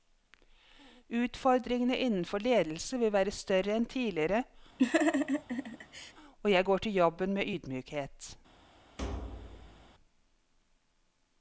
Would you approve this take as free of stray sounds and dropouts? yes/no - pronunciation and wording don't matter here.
no